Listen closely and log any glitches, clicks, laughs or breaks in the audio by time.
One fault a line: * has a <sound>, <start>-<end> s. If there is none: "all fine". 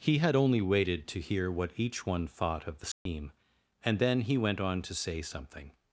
* has a dropout, 2.9-3.1 s